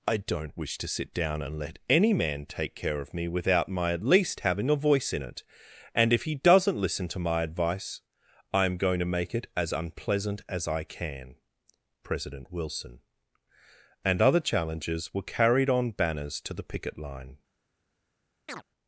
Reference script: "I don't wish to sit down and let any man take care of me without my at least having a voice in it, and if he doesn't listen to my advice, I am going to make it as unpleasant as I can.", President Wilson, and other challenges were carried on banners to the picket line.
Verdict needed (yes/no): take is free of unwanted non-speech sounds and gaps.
no